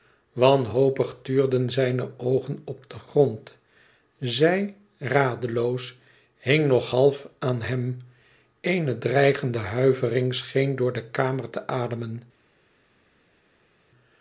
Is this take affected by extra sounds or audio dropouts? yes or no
no